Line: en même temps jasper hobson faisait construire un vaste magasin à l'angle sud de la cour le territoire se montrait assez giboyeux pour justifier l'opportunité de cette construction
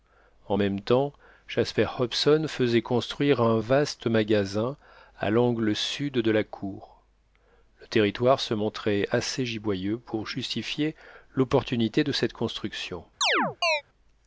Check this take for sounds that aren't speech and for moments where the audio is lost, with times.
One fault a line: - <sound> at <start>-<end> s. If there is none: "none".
- chirp at 13.2-13.8 s